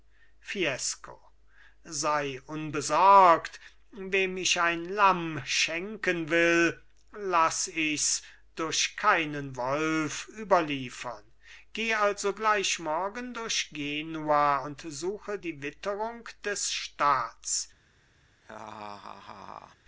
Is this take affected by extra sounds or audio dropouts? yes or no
yes